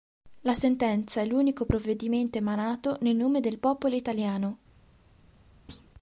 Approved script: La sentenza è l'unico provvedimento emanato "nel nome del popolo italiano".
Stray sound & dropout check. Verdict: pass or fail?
fail